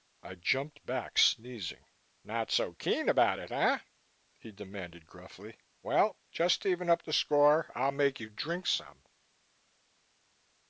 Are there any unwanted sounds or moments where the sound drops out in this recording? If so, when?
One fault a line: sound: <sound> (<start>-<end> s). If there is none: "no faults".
no faults